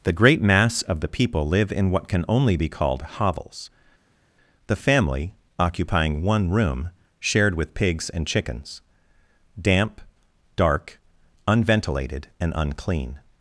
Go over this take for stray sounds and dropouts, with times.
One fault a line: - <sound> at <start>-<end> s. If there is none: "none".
none